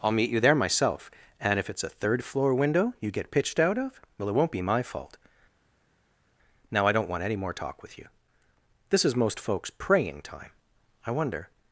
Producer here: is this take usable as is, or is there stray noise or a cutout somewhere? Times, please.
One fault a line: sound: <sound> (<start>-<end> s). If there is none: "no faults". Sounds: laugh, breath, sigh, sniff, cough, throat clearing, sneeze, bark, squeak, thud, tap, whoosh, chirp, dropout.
no faults